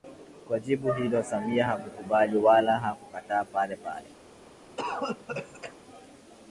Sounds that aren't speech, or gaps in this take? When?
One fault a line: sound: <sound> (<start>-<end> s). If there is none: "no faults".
sound: cough (4.8-5.8 s)